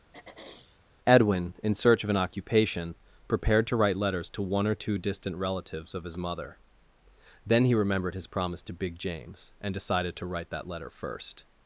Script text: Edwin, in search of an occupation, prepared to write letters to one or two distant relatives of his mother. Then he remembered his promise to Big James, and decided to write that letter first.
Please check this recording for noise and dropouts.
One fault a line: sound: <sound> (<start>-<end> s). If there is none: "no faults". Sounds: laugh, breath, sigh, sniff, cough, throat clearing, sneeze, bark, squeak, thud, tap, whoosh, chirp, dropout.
sound: throat clearing (0.1-0.8 s)